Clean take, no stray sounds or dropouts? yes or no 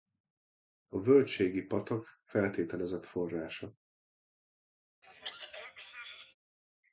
no